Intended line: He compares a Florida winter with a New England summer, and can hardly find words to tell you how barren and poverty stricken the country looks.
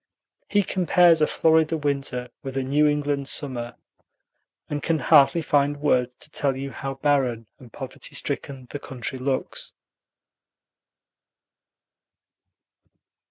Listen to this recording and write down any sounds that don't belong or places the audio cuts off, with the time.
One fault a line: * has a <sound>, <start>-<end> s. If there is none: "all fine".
all fine